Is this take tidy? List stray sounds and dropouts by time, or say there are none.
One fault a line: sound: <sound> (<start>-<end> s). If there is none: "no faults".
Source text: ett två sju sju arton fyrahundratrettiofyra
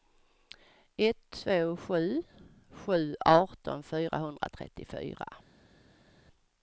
no faults